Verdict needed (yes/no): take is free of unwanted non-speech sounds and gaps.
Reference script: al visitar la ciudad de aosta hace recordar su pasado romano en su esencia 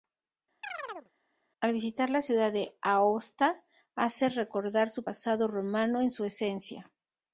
no